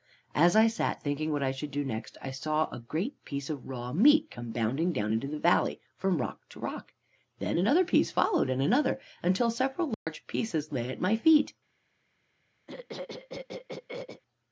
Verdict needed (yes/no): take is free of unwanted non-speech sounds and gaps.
no